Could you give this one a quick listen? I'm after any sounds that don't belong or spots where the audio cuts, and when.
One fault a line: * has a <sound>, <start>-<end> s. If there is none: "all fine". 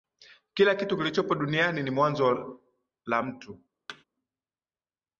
* has a thud, 3.9-4.0 s